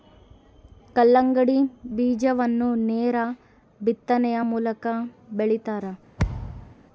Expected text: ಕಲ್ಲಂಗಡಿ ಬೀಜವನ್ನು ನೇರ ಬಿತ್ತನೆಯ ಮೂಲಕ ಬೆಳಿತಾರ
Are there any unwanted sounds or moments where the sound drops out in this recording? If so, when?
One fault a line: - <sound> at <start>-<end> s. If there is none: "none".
- thud at 6.2-6.8 s